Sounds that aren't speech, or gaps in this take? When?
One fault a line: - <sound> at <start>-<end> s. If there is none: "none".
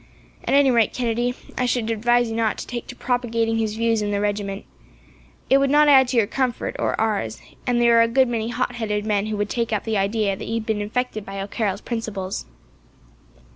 none